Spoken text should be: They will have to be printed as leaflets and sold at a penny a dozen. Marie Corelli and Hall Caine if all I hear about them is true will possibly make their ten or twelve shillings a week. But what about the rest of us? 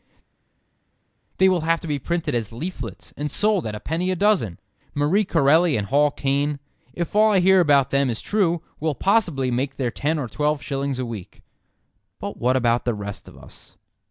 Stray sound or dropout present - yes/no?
no